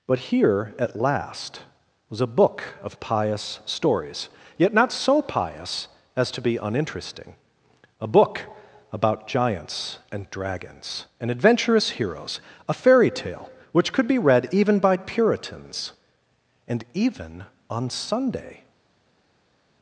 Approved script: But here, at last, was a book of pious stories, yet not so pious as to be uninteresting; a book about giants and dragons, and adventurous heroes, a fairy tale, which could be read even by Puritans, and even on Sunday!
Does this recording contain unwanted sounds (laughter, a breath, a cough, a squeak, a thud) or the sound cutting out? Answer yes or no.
no